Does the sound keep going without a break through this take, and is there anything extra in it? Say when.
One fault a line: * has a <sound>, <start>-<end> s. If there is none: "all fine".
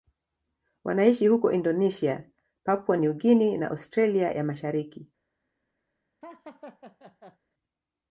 * has a laugh, 6.2-7.4 s